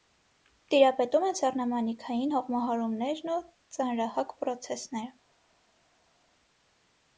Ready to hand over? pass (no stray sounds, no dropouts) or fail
pass